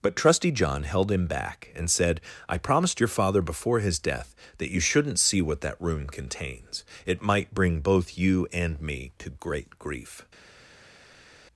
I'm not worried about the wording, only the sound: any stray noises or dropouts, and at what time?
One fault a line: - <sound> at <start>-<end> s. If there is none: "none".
none